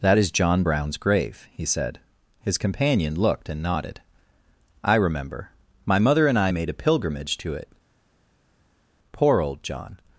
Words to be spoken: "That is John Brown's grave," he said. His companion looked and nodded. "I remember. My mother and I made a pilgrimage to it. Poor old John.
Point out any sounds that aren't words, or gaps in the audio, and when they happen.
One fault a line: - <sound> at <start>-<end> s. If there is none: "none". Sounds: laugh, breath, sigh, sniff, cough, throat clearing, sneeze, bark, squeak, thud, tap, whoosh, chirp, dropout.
none